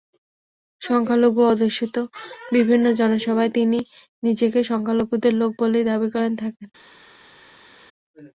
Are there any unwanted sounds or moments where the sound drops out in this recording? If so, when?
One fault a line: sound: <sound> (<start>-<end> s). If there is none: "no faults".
no faults